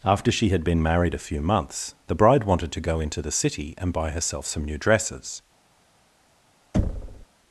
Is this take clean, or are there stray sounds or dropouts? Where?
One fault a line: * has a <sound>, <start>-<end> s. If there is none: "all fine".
* has a thud, 6.7-7.3 s